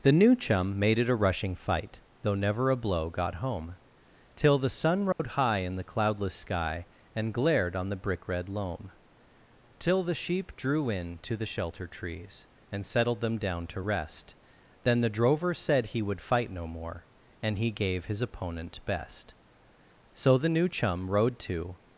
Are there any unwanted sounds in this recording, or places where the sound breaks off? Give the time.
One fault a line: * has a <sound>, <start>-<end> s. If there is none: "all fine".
* has a dropout, 5.1-5.2 s